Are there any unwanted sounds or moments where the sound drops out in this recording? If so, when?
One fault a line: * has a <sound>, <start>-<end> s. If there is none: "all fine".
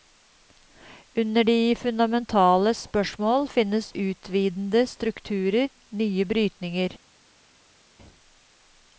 all fine